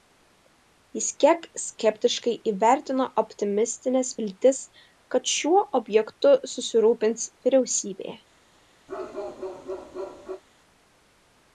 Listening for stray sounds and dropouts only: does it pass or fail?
fail